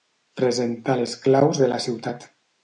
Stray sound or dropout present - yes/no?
no